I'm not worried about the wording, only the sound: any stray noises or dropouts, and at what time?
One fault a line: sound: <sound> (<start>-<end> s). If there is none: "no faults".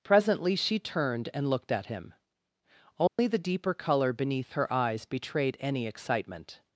sound: dropout (3.1-3.2 s)